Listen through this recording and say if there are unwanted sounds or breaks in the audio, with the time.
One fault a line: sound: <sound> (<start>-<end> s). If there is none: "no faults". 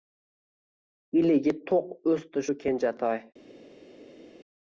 no faults